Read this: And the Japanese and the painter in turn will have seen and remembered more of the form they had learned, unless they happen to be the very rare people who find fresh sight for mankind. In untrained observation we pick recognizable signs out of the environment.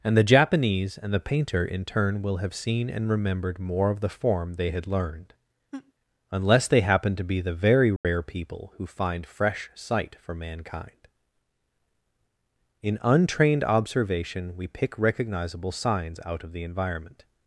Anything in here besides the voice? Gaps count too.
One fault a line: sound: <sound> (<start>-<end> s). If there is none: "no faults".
sound: laugh (5.7-5.9 s)
sound: dropout (8.0-8.0 s)